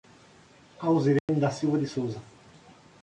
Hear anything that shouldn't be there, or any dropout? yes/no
yes